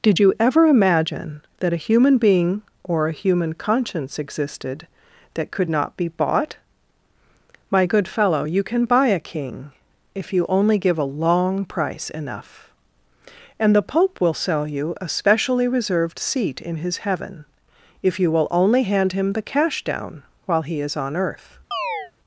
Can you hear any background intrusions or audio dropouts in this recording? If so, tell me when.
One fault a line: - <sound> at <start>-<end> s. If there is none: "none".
- chirp at 21.7-22.1 s